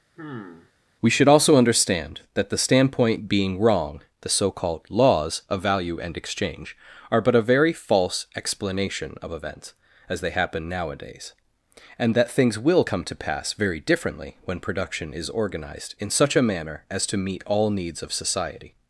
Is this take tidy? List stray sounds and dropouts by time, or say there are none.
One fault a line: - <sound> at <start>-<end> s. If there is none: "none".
- sigh at 0.2-0.7 s